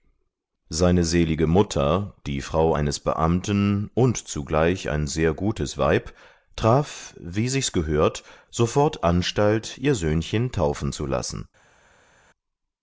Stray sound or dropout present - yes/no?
no